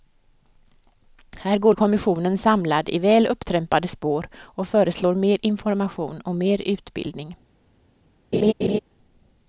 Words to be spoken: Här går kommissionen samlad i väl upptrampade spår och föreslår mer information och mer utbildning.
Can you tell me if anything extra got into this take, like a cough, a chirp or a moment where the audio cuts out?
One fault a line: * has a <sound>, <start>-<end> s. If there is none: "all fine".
* has a laugh, 8.3-8.8 s